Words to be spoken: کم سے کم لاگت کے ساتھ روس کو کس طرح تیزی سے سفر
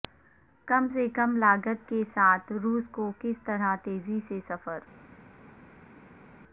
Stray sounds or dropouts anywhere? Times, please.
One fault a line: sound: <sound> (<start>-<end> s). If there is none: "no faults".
no faults